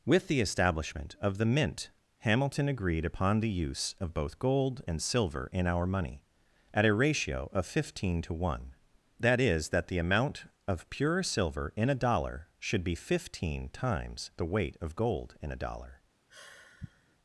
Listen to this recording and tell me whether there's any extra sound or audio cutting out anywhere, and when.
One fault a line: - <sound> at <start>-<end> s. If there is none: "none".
- sigh at 16.3-17.2 s